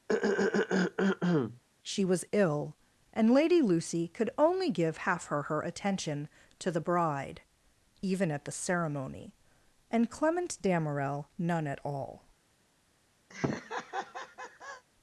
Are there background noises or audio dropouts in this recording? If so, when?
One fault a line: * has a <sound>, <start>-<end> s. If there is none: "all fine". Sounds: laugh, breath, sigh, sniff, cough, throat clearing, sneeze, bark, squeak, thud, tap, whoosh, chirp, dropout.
* has a throat clearing, 0.1-1.6 s
* has a laugh, 13.3-14.8 s